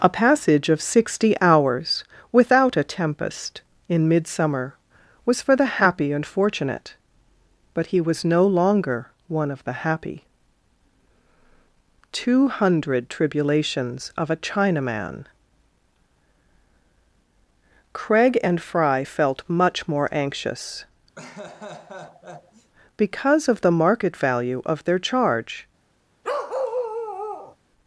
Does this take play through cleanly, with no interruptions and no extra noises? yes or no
no